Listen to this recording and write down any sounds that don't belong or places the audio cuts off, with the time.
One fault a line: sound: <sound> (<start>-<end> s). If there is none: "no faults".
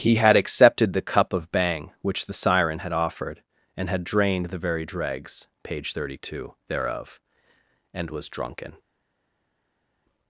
no faults